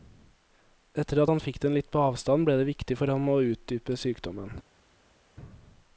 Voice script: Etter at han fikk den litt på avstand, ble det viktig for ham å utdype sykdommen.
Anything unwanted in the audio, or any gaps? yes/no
no